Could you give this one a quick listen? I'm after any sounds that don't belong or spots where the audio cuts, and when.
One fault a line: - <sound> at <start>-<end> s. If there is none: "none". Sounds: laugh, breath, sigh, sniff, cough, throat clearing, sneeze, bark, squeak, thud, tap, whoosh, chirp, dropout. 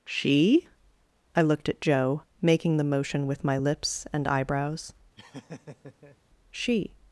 - laugh at 5.2-6.2 s